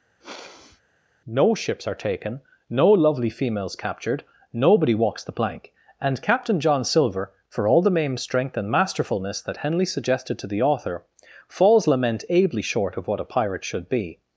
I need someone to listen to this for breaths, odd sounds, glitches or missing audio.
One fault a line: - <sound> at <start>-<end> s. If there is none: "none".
- sniff at 0.2-0.8 s